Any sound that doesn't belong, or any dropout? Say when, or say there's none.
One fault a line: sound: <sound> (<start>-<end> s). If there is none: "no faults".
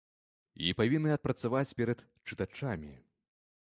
no faults